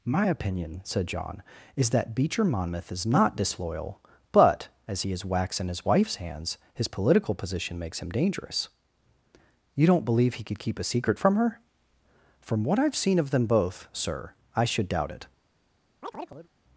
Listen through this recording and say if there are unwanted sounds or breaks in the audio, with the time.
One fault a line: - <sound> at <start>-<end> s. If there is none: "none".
- chirp at 16.0-16.5 s